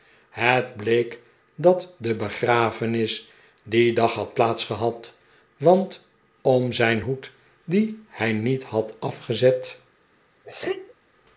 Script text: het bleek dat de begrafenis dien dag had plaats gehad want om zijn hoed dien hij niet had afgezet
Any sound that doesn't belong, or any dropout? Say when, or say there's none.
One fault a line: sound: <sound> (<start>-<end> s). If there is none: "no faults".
sound: sneeze (10.4-10.9 s)